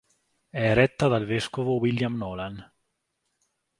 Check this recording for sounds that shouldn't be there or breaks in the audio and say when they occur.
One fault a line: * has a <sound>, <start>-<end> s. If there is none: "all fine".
all fine